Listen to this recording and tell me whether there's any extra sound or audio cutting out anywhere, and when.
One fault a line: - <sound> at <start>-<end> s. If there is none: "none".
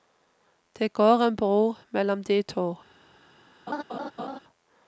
- laugh at 3.7-4.4 s